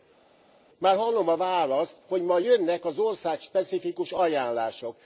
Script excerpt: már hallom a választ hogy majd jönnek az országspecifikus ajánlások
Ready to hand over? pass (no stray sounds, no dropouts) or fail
pass